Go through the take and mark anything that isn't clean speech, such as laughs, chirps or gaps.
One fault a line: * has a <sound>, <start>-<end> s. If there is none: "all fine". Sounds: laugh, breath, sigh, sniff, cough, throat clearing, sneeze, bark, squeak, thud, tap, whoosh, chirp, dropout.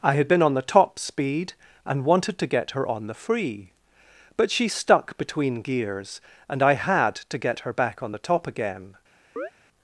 * has a chirp, 9.4-9.5 s